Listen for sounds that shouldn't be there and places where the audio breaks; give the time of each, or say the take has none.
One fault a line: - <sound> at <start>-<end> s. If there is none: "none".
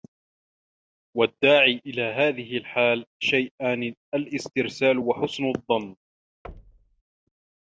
- thud at 6.4-7.0 s